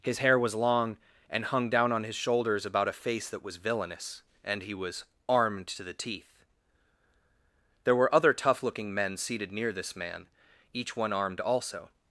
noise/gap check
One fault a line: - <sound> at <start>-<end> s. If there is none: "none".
none